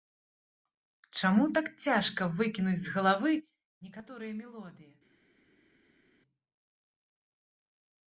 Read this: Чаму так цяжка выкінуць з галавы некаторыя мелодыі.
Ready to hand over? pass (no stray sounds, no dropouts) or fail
pass